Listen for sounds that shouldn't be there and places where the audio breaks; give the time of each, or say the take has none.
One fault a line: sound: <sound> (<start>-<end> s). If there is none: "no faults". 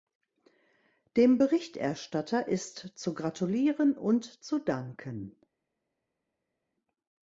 no faults